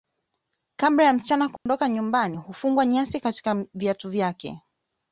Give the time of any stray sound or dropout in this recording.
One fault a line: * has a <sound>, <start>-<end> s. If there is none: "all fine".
* has a dropout, 1.6-1.7 s